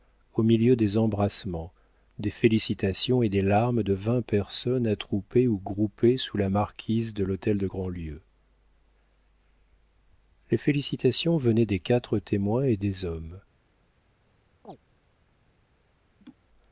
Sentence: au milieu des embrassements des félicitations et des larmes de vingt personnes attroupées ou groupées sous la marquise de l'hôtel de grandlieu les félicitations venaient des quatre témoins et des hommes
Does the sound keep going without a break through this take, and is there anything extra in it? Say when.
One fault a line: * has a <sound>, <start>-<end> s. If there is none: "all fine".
* has a chirp, 14.6-14.8 s
* has a laugh, 16.2-16.4 s